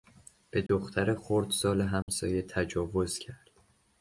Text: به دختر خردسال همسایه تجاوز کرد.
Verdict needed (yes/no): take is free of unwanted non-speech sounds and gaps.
no